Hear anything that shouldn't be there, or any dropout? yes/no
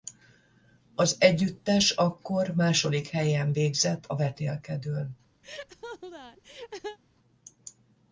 yes